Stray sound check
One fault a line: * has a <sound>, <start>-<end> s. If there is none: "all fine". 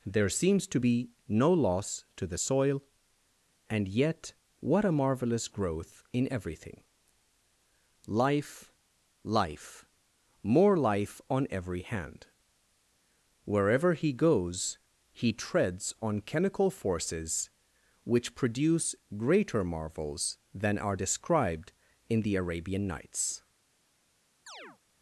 * has a chirp, 24.5-24.8 s